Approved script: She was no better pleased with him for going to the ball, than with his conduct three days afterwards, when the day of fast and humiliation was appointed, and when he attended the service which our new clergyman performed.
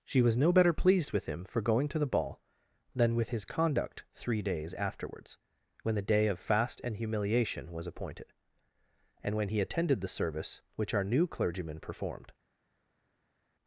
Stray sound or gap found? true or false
false